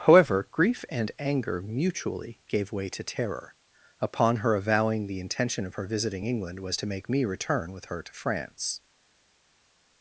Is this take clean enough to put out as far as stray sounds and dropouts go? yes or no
yes